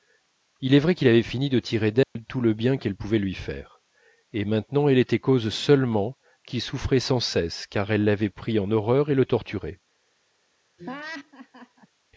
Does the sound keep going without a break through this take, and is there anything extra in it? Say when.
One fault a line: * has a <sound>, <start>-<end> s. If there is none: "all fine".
* has a dropout, 2.0-2.2 s
* has a laugh, 10.8-11.9 s